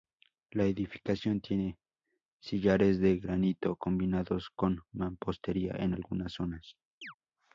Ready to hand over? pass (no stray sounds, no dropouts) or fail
fail